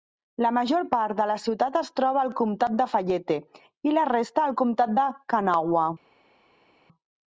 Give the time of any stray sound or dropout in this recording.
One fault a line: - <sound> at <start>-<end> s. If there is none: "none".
none